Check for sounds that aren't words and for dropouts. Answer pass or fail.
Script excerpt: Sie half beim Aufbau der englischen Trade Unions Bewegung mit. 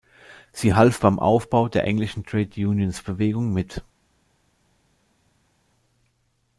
pass